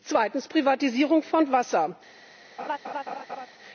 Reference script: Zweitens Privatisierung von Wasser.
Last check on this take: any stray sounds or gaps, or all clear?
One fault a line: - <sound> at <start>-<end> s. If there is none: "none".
- laugh at 2.6-3.5 s